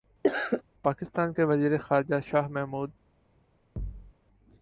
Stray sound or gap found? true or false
true